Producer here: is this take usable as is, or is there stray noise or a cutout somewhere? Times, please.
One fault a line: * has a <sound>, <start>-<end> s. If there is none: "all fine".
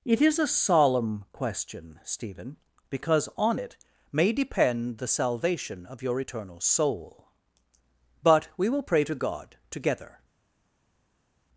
all fine